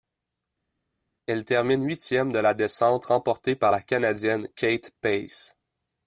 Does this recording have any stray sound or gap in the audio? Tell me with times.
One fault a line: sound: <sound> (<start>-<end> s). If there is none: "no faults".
no faults